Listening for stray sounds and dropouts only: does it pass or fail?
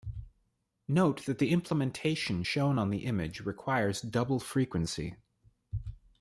pass